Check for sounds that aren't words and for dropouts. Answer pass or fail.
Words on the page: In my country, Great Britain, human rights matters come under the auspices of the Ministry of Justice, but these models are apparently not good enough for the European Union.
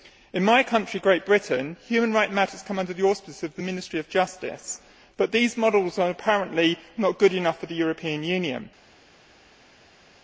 pass